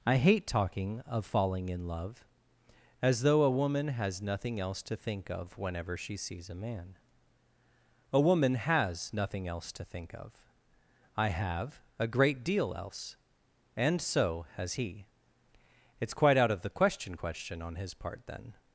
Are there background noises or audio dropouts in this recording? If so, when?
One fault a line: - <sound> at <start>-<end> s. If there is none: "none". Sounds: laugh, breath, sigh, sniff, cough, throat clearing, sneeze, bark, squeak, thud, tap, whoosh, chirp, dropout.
none